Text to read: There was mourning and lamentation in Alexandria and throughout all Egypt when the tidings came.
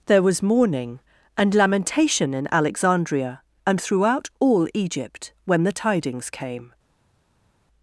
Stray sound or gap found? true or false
false